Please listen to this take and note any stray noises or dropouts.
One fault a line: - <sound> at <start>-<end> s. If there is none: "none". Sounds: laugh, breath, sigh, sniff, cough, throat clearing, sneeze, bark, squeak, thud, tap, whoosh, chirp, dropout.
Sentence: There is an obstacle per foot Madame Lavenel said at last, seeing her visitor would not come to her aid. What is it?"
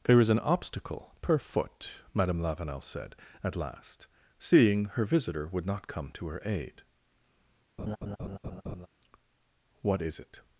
- laugh at 7.8-8.9 s